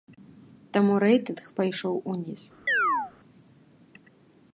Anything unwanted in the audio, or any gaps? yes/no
yes